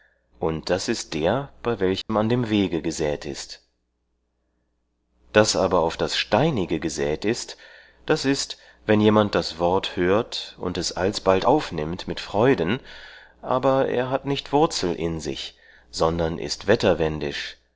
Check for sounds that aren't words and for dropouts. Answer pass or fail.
fail